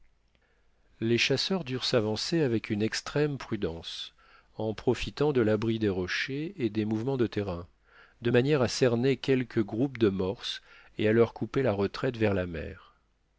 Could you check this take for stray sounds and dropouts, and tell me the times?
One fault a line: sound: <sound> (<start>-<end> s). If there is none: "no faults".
no faults